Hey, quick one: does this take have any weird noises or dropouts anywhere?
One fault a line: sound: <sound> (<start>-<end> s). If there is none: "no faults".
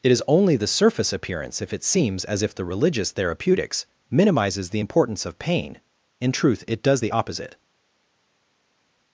no faults